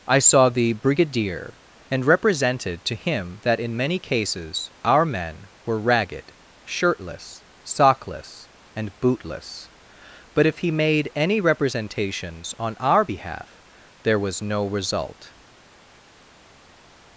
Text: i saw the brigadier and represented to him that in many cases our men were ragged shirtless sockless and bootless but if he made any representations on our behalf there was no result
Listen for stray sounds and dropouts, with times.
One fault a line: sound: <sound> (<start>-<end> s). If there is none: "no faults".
no faults